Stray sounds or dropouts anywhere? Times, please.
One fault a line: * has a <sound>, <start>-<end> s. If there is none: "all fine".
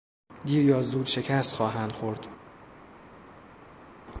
all fine